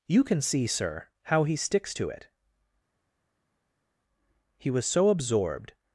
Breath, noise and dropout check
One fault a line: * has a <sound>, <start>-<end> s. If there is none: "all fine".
all fine